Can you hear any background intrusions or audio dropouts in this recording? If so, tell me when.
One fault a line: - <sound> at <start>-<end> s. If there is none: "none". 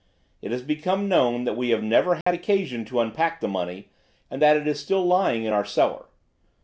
- dropout at 2.2-2.3 s